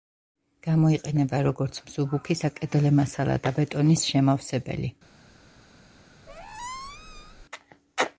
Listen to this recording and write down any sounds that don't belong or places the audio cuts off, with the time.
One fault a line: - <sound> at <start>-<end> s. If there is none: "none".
- squeak at 6.3-7.4 s